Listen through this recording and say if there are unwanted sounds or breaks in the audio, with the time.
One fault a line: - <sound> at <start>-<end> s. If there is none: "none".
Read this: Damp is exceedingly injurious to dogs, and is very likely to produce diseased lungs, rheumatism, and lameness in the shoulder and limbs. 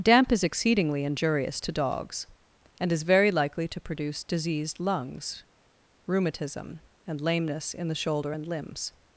none